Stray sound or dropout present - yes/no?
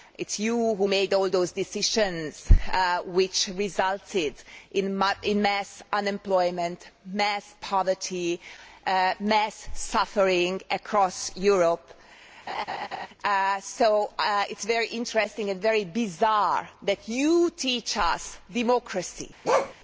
yes